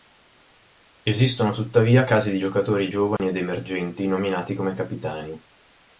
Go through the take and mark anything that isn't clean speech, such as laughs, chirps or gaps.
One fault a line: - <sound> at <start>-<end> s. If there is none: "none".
- dropout at 3.2-3.2 s